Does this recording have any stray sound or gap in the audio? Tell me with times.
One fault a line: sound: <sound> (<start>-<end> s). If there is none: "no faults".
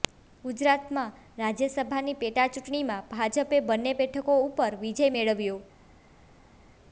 no faults